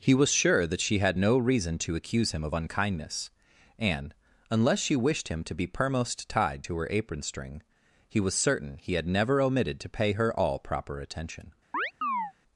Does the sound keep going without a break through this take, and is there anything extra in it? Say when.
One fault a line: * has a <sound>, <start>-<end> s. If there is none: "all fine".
* has a chirp, 11.7-12.3 s